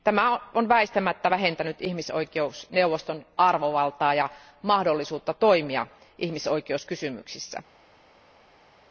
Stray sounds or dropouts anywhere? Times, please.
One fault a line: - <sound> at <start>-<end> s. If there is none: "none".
none